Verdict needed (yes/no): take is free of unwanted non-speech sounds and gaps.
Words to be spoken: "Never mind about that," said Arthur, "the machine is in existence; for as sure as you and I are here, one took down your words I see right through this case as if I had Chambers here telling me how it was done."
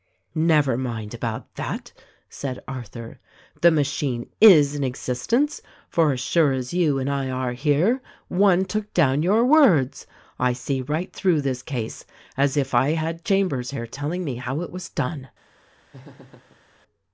no